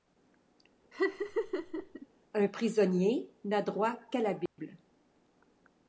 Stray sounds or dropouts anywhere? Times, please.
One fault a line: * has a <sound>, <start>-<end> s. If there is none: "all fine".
* has a laugh, 0.9-2.1 s
* has a dropout, 4.5-4.6 s